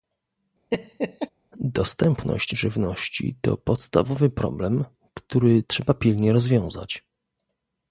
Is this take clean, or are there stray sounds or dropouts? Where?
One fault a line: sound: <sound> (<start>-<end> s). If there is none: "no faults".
sound: laugh (0.7-1.3 s)